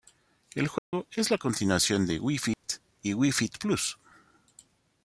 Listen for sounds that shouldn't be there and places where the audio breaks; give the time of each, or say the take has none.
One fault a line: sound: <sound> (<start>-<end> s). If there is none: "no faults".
sound: dropout (0.8-0.9 s)
sound: dropout (2.5-2.6 s)